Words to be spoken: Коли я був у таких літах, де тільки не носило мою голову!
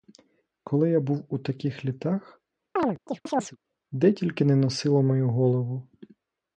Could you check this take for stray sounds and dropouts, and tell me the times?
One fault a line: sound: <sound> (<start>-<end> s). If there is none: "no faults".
sound: chirp (2.8-3.6 s)